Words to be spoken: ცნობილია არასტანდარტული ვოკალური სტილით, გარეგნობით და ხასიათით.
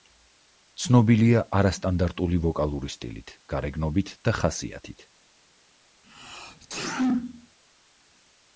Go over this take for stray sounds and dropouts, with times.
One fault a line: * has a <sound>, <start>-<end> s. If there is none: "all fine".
* has a sneeze, 6.0-7.6 s